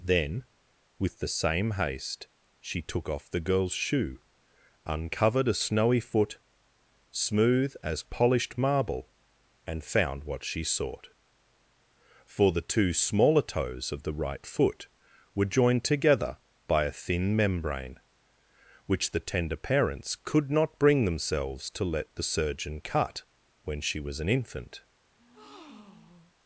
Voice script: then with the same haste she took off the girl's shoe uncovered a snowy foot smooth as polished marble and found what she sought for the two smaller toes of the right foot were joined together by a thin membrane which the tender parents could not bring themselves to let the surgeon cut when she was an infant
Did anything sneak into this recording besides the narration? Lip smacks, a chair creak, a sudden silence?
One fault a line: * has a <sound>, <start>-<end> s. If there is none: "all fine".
* has a breath, 25.2-26.3 s